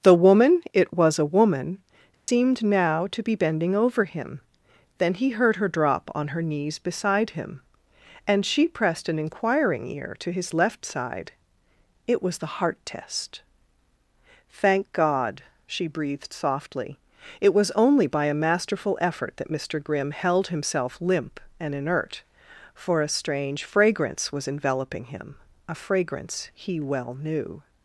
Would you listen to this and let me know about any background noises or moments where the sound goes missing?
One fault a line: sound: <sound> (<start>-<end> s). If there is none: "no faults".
sound: dropout (2.1-2.3 s)